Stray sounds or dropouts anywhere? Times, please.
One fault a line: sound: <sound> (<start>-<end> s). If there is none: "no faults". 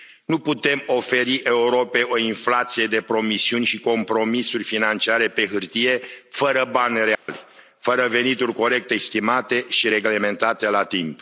sound: dropout (7.1-7.3 s)